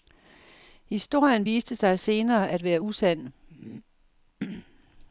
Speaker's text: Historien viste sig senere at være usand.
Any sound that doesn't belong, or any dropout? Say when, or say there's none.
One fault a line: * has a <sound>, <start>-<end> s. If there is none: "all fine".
all fine